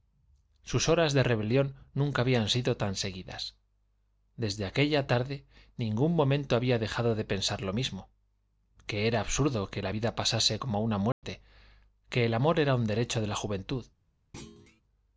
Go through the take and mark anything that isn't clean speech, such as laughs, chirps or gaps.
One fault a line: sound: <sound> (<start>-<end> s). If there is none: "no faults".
sound: dropout (11.1-11.2 s)
sound: thud (14.3-14.8 s)